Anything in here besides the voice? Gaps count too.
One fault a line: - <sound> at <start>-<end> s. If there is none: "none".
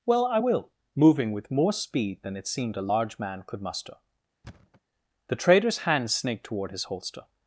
- thud at 4.4-4.8 s